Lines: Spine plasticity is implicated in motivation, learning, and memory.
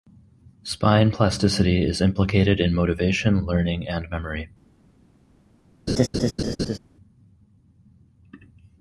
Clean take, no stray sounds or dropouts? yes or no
no